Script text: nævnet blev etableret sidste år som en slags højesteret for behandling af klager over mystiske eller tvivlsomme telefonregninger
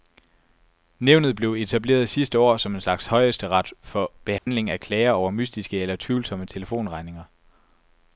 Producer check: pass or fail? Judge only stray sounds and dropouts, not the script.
fail